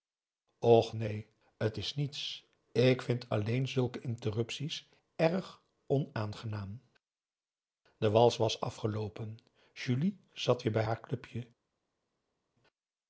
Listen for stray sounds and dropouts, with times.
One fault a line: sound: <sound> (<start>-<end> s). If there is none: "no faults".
no faults